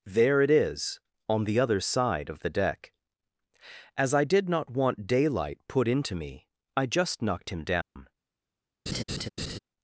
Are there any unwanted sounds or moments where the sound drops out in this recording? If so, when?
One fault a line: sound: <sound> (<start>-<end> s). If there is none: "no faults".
sound: dropout (7.8-8.0 s)
sound: laugh (8.9-9.6 s)